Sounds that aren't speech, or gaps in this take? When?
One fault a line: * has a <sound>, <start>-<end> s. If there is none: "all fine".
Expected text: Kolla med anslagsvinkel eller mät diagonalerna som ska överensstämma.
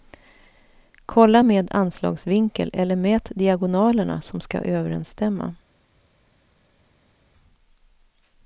all fine